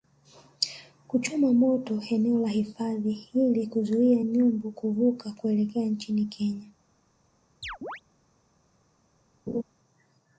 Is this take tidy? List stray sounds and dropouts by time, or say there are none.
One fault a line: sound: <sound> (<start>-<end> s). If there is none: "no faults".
sound: chirp (7.6-8.0 s)
sound: laugh (9.5-9.6 s)